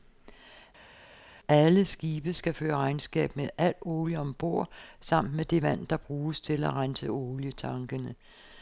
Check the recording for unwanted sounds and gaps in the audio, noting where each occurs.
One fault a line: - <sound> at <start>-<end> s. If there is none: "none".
none